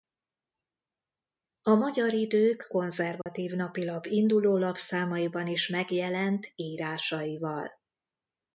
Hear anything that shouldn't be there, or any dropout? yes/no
yes